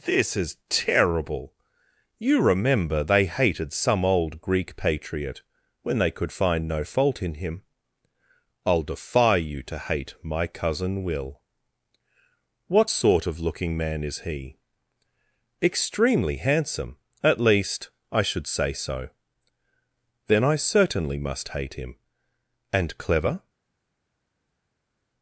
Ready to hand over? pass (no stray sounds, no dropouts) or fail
pass